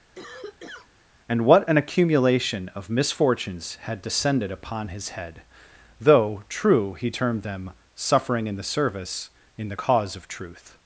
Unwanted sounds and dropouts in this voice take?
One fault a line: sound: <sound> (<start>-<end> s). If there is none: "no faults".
sound: cough (0.2-0.9 s)